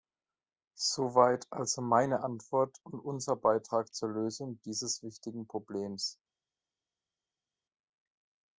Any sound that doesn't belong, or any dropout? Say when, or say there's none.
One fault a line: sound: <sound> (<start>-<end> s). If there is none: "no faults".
no faults